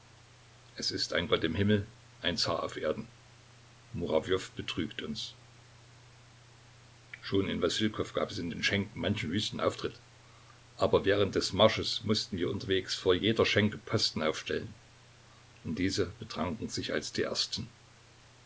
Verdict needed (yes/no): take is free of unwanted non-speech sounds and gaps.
yes